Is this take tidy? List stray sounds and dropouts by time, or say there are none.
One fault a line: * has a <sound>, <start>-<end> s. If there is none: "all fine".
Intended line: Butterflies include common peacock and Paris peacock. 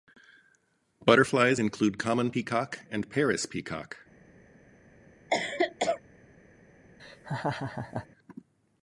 * has a cough, 5.3-6.0 s
* has a laugh, 7.0-8.1 s